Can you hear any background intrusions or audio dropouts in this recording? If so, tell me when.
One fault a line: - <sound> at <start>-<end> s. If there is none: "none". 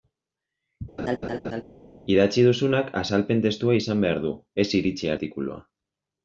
- laugh at 1.0-1.6 s